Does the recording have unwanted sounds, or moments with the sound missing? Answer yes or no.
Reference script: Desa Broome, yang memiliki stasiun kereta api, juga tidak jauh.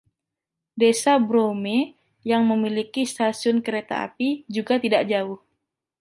no